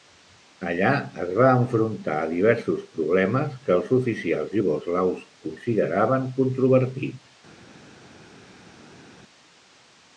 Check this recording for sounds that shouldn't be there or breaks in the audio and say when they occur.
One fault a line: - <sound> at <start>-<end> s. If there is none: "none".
none